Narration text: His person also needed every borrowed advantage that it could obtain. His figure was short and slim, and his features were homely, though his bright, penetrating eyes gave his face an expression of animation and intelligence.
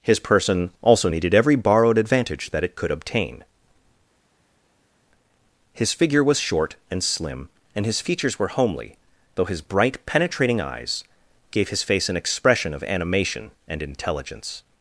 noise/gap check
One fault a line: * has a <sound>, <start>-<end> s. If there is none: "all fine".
all fine